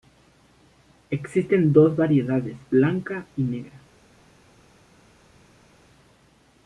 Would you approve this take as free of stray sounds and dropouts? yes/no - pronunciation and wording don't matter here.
yes